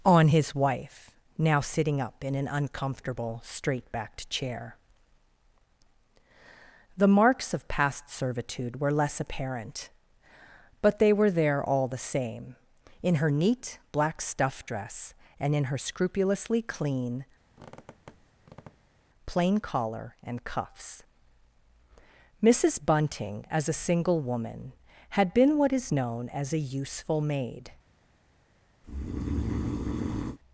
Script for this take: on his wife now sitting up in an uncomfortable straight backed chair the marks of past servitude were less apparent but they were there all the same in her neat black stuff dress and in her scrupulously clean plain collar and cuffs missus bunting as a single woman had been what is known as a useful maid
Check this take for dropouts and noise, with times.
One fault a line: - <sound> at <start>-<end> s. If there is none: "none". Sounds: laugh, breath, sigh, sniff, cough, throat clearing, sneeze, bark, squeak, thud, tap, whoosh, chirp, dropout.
- squeak at 17.5-19.0 s
- breath at 28.8-30.4 s